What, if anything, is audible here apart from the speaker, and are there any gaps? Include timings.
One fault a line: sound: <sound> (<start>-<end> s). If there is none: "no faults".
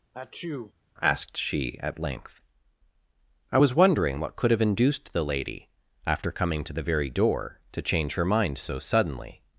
sound: sneeze (0.1-0.7 s)